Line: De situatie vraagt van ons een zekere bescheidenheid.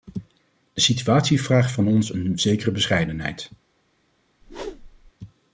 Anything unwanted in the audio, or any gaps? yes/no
yes